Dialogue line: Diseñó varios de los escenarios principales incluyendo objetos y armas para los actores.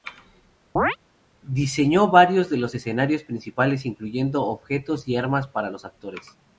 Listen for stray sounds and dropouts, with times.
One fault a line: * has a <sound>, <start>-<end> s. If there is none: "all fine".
* has a chirp, 0.8-1.0 s